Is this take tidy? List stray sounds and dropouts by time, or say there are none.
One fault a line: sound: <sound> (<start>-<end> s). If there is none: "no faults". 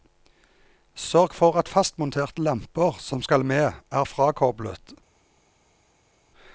no faults